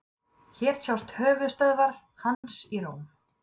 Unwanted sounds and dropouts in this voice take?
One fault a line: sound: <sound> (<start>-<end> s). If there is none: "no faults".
sound: dropout (2.3-2.4 s)